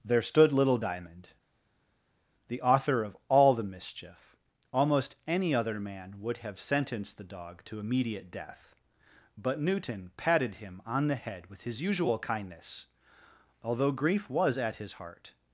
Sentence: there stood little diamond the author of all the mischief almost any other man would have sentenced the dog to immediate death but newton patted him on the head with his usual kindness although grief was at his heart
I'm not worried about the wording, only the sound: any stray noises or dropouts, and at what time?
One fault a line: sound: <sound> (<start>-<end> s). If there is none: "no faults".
no faults